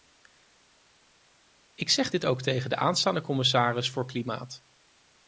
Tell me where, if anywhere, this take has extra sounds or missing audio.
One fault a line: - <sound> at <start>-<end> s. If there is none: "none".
none